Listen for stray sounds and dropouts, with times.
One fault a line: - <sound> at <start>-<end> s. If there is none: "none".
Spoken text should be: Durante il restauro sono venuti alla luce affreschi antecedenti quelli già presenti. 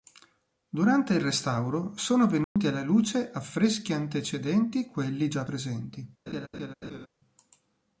- dropout at 2.4-2.6 s
- laugh at 6.3-7.1 s